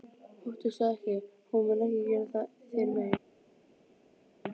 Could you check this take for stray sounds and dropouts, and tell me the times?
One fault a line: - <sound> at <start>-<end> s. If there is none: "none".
none